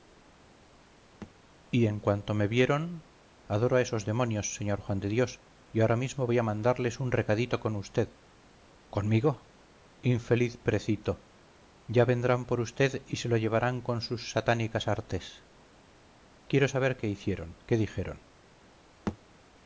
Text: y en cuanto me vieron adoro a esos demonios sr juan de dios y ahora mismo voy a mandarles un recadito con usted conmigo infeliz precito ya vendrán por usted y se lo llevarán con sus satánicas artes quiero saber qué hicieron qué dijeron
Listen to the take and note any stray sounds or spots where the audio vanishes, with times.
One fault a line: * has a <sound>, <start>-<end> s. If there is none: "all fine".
* has a thud, 1.2-1.3 s
* has a thud, 19.1-19.2 s